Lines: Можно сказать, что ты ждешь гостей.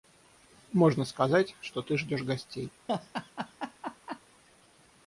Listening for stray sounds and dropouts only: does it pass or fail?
fail